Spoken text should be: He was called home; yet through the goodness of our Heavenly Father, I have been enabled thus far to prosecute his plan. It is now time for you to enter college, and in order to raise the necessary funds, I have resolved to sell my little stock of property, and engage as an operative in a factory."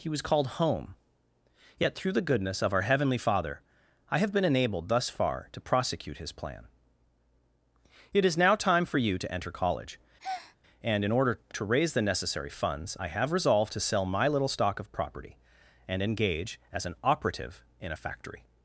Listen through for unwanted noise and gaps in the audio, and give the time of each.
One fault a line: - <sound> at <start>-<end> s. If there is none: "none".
- breath at 10.2-10.6 s